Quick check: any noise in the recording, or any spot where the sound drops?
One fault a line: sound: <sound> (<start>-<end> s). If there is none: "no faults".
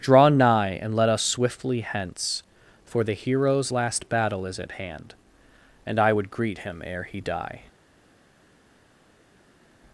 no faults